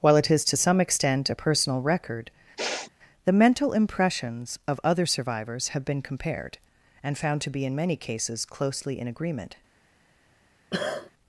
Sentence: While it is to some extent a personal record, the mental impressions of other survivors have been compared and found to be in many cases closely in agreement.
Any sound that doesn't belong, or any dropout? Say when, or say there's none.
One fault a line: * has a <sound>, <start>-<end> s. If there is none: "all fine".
* has a sniff, 2.6-2.9 s
* has a cough, 10.7-11.1 s